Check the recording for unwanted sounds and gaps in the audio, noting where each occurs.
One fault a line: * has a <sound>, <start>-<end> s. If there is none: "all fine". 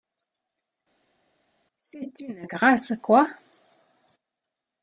all fine